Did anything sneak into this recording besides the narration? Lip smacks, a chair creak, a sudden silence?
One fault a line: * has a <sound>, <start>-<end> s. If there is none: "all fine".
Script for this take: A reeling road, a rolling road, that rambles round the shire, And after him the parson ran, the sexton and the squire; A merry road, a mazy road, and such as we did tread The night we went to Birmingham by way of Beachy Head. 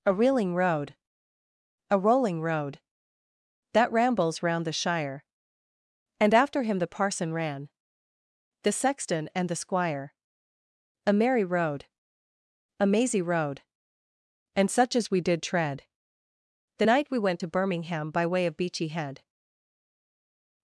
all fine